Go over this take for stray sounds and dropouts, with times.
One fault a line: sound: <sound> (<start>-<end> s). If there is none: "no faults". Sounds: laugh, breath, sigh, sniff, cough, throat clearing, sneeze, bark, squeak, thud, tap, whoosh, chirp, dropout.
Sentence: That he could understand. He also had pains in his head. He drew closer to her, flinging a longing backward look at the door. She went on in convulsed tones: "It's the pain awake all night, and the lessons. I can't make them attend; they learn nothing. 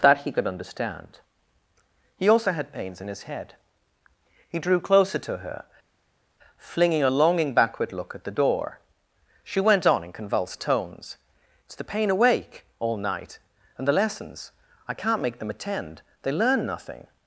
no faults